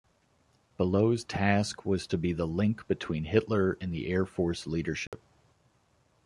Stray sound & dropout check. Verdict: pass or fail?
fail